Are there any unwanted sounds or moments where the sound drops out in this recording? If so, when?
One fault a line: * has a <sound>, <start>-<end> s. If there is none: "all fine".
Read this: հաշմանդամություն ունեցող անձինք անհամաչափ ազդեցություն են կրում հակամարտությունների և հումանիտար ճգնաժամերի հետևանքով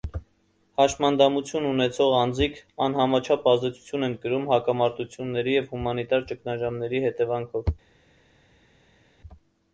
all fine